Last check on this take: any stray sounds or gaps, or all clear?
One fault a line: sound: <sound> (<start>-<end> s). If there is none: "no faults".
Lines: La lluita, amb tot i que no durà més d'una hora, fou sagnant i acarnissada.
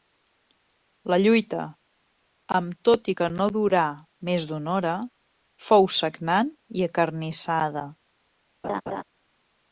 sound: laugh (8.6-9.0 s)